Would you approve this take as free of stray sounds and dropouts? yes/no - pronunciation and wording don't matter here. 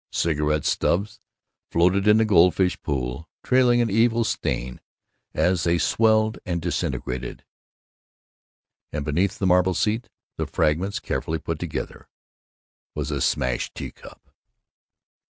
yes